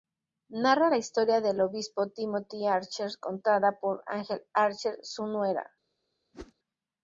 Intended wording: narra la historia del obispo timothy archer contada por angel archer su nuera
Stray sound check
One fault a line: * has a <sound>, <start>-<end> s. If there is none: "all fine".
* has a whoosh, 6.3-6.5 s